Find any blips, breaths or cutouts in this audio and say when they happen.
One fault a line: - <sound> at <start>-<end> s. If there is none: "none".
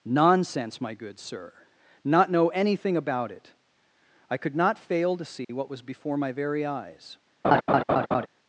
- dropout at 5.4-5.5 s
- laugh at 7.4-8.3 s